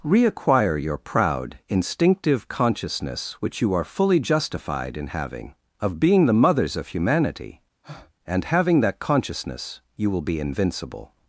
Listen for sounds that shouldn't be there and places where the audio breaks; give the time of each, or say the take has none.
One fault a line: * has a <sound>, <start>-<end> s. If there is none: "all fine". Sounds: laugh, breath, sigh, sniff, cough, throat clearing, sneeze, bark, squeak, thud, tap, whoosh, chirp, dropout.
* has a breath, 7.8-8.1 s